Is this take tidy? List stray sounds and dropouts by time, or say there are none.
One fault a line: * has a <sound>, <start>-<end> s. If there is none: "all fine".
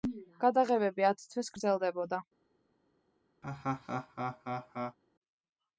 * has a laugh, 3.4-5.0 s